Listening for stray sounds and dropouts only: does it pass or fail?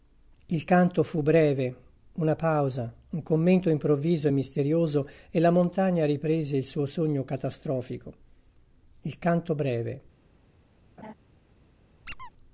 fail